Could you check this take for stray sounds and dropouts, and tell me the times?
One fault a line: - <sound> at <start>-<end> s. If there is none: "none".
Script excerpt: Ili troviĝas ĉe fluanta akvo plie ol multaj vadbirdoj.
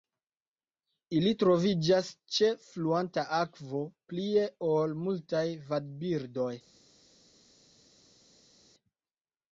none